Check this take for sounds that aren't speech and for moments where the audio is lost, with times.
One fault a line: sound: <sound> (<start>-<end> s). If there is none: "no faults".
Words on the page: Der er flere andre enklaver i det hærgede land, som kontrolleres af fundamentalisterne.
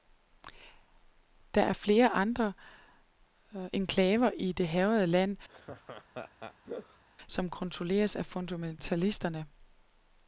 sound: laugh (5.5-7.0 s)